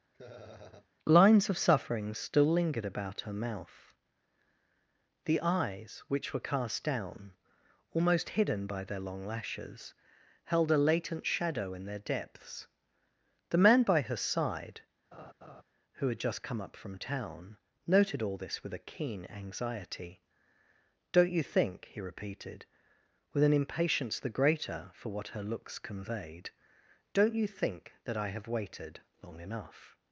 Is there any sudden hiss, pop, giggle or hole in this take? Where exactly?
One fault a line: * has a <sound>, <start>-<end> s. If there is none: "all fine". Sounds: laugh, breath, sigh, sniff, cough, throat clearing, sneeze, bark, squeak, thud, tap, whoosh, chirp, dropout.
* has a laugh, 0.1-0.9 s
* has a laugh, 15.1-15.6 s